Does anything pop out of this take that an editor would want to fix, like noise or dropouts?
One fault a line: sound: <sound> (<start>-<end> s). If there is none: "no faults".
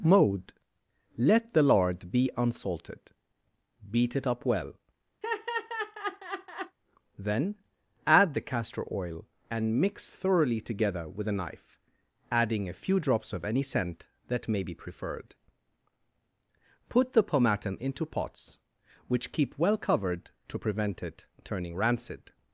sound: laugh (5.2-6.8 s)